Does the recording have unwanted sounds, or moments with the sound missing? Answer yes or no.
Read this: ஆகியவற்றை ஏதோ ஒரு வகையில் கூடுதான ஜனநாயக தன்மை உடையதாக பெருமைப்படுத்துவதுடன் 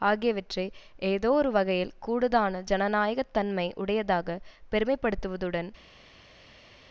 no